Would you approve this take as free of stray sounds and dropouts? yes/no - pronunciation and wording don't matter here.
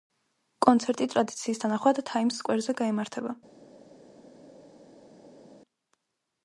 yes